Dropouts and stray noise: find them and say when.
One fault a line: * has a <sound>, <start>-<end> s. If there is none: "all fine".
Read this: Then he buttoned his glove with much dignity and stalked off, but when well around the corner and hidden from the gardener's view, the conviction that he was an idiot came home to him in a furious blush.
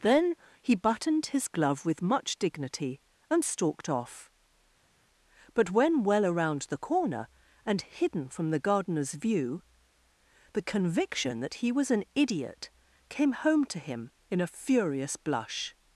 all fine